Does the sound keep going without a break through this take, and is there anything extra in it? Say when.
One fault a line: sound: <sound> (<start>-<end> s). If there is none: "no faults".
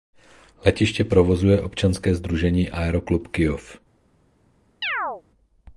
sound: chirp (4.8-5.2 s)